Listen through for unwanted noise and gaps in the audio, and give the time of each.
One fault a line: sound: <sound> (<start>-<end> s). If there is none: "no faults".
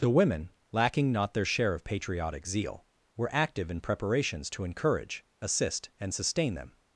no faults